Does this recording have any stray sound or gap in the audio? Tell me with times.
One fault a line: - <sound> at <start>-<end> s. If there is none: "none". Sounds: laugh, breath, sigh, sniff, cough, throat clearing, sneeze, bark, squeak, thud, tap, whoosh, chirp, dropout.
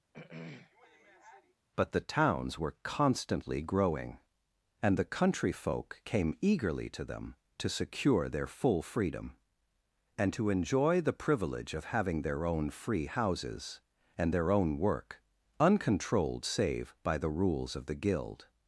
- throat clearing at 0.1-1.6 s